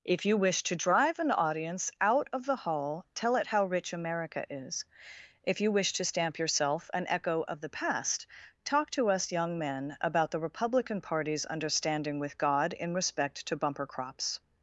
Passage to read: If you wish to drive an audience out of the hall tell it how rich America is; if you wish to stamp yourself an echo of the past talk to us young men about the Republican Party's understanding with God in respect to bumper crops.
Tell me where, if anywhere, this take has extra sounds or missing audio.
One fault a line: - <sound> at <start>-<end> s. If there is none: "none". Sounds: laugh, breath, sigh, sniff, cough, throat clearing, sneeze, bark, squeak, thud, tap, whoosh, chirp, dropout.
none